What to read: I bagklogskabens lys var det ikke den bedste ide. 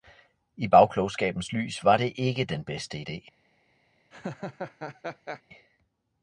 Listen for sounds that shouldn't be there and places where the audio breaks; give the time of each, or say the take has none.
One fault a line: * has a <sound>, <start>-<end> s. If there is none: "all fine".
* has a laugh, 4.1-5.4 s